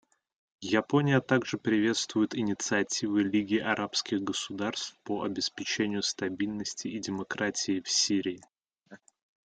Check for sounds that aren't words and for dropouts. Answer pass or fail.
fail